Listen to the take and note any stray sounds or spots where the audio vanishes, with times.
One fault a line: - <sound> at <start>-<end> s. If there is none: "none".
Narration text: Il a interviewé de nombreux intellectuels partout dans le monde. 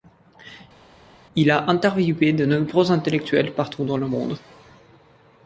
none